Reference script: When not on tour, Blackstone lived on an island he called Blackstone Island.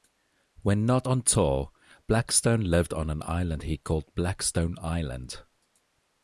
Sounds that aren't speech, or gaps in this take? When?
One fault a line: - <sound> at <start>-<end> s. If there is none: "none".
none